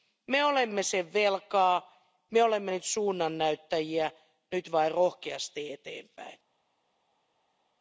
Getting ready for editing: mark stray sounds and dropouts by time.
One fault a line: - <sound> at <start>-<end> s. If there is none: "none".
none